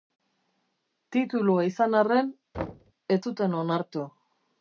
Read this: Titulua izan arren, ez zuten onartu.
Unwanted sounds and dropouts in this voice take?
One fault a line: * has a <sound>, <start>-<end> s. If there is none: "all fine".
* has a thud, 2.5-2.9 s